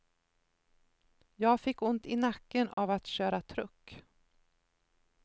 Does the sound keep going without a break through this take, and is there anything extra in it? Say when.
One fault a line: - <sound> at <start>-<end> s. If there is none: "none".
- dropout at 2.7-2.8 s